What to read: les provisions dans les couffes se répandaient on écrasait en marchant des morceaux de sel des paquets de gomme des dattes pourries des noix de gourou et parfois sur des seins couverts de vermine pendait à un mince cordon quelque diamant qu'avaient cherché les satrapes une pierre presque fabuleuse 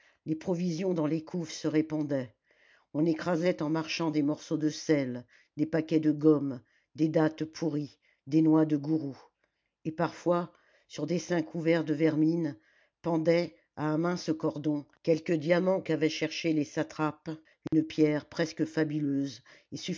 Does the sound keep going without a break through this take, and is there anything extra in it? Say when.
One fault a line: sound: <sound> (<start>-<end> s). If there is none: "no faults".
sound: dropout (17.7-17.7 s)